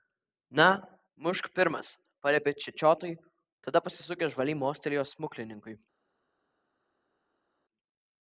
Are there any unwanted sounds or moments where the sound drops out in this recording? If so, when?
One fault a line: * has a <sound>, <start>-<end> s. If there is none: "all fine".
all fine